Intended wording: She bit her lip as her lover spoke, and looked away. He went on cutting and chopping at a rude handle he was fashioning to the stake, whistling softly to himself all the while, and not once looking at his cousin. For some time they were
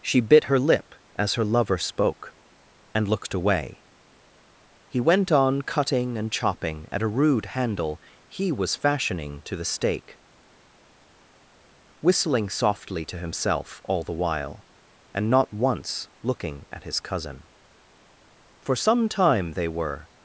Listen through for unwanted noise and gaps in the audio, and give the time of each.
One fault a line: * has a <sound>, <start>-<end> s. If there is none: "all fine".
all fine